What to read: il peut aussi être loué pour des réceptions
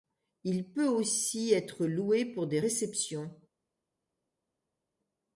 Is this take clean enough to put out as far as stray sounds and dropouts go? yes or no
yes